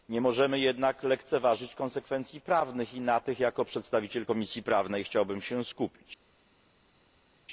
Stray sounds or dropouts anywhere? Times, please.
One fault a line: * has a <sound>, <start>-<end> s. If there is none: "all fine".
all fine